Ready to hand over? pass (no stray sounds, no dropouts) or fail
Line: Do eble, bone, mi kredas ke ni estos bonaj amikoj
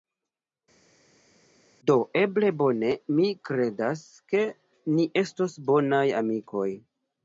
pass